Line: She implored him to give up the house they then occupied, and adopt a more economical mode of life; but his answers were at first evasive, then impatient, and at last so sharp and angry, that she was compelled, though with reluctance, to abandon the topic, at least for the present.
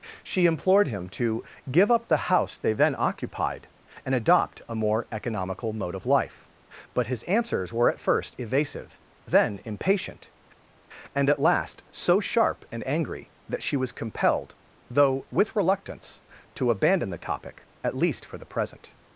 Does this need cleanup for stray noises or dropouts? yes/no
no